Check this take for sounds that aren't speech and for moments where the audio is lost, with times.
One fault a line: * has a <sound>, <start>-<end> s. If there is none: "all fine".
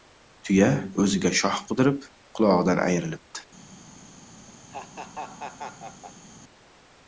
* has a laugh, 4.7-6.2 s